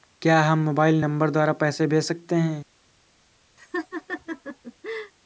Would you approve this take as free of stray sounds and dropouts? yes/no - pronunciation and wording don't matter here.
no